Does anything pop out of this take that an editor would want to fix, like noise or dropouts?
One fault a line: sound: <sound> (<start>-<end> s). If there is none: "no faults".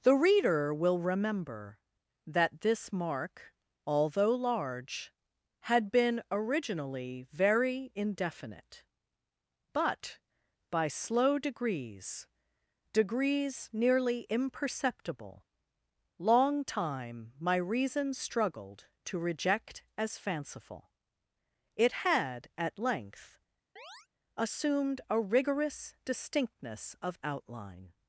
sound: chirp (23.8-24.1 s)